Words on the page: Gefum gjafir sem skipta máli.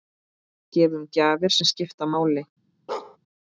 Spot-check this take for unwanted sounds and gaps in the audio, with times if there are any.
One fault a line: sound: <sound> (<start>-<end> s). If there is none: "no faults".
sound: bark (2.9-3.2 s)